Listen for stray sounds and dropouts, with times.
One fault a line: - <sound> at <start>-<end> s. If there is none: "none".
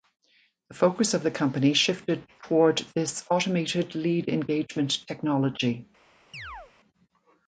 - chirp at 6.3-6.7 s